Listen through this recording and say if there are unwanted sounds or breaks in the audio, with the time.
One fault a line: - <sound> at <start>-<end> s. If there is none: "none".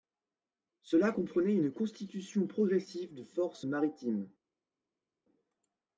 none